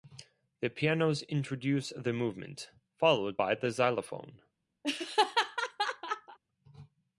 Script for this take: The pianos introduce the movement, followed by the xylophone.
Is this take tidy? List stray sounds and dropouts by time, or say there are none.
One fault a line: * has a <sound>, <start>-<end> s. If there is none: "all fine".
* has a laugh, 4.8-6.4 s